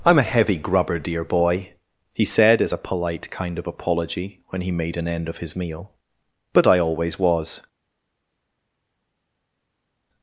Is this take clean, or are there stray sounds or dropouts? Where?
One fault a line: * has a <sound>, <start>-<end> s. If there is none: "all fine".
all fine